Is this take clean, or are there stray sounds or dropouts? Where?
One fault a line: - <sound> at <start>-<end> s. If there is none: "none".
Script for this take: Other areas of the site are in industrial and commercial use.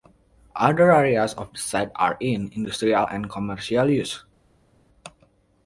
none